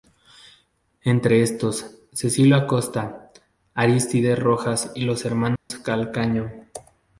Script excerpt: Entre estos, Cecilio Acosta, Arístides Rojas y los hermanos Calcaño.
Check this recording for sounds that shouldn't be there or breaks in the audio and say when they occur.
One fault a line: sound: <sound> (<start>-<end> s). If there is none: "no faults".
sound: dropout (5.6-5.7 s)